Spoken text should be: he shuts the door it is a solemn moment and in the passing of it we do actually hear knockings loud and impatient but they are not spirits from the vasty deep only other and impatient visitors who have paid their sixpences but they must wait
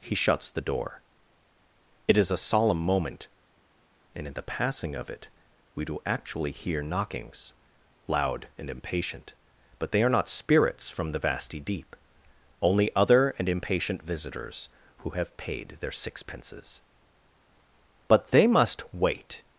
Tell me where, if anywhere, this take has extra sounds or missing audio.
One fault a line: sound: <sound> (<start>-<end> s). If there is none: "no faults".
no faults